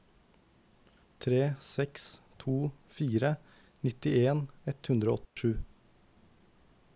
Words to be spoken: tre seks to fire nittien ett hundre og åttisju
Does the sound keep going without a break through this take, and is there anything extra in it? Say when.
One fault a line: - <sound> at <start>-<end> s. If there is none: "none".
- dropout at 5.3-5.4 s